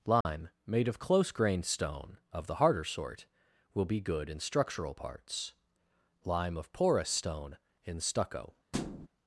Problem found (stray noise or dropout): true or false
true